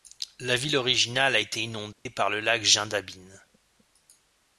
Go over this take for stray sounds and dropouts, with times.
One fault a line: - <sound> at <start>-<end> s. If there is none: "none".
- dropout at 1.9-2.1 s